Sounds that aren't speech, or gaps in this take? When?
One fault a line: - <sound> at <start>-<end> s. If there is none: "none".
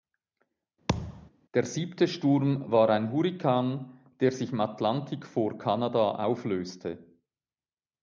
- thud at 0.9-1.3 s